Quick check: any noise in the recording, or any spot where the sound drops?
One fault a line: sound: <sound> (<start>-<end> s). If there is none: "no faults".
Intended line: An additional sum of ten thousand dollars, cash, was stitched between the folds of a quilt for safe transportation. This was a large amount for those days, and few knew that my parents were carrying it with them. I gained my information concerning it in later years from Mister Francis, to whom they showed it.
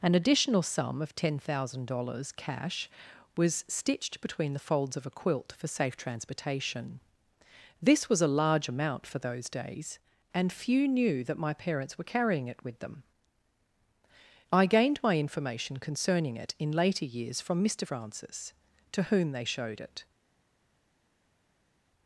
no faults